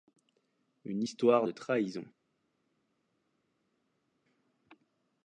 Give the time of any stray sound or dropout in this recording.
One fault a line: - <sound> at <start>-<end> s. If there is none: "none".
none